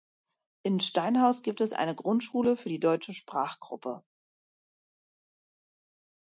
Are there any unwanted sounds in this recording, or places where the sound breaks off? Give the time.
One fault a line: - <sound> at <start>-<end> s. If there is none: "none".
none